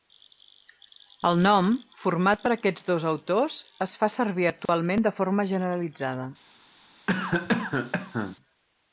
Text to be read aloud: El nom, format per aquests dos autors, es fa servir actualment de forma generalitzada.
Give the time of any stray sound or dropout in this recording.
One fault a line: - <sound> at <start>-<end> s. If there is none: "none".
- dropout at 4.7-4.7 s
- cough at 7.1-8.4 s